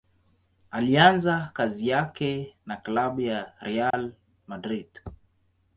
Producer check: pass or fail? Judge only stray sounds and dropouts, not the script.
fail